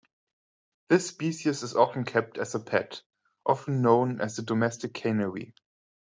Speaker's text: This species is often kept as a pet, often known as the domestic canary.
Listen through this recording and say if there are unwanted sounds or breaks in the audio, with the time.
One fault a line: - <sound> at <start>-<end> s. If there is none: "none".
none